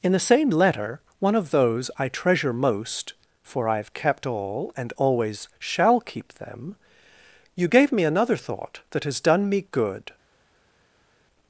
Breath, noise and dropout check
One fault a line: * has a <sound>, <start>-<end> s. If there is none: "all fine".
all fine